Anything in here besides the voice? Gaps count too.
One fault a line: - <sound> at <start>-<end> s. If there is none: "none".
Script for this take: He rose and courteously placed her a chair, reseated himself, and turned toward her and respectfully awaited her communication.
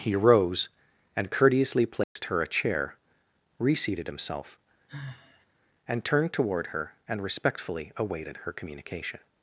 - dropout at 2.0-2.2 s
- sigh at 4.9-5.5 s